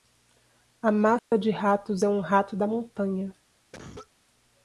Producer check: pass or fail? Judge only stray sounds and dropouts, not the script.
fail